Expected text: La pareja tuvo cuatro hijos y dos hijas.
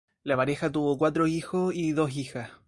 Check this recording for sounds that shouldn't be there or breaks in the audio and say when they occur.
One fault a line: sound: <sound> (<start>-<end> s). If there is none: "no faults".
no faults